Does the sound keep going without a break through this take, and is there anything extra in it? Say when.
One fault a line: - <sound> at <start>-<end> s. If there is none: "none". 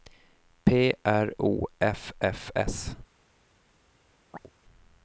- chirp at 4.3-4.5 s